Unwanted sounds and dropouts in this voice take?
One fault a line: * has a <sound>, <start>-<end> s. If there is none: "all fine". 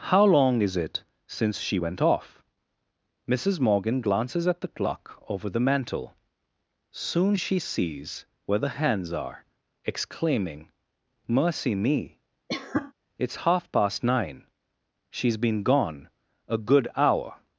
* has a cough, 12.5-12.9 s